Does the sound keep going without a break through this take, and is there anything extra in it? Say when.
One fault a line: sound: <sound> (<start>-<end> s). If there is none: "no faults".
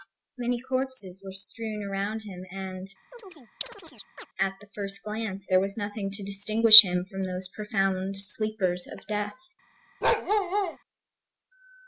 sound: chirp (3.1-4.3 s)
sound: bark (10.0-10.8 s)